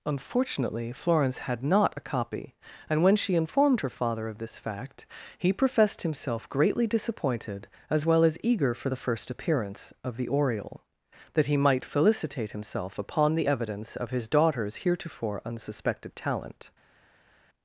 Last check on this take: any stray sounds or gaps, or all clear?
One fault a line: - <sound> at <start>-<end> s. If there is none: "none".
none